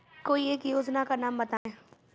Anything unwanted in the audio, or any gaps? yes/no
yes